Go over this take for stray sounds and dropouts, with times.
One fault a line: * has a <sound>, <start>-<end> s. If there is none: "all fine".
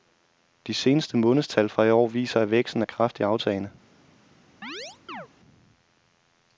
* has a chirp, 4.6-5.3 s